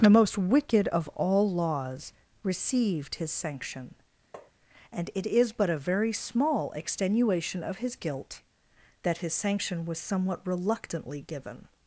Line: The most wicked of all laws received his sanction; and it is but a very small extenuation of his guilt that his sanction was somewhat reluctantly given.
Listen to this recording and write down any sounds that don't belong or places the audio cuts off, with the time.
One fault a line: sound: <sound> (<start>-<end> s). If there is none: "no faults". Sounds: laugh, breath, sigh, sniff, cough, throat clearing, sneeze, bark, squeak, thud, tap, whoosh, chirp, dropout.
sound: tap (4.3-4.5 s)